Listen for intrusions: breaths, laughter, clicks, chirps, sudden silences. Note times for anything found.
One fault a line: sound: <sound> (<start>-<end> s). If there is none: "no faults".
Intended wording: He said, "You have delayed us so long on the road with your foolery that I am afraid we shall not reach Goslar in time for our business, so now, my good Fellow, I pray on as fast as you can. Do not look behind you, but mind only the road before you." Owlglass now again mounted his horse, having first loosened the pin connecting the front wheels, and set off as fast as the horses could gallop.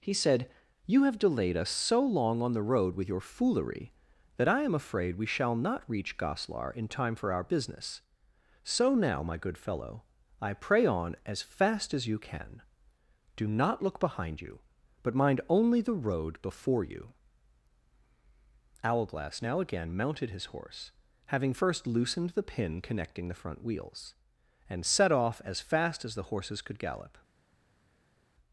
no faults